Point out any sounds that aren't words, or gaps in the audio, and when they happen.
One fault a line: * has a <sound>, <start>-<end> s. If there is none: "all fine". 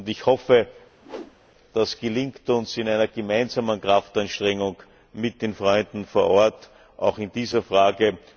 * has a whoosh, 1.0-1.4 s